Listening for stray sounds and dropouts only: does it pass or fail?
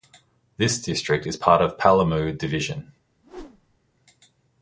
fail